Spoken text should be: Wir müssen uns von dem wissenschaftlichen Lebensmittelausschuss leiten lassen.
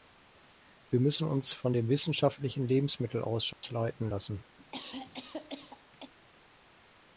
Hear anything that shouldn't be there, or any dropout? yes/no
yes